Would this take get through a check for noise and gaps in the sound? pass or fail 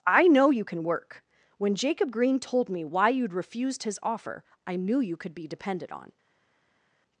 pass